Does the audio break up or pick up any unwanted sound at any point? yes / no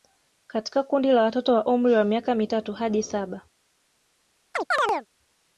yes